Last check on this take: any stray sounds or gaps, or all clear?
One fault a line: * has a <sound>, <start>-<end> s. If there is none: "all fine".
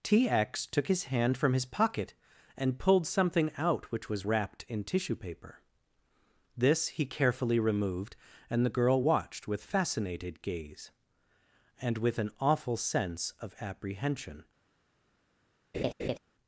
* has a laugh, 15.7-16.2 s